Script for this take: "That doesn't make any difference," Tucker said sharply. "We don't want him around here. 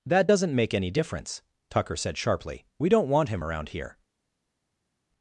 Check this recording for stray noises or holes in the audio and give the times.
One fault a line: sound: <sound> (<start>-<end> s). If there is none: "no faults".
no faults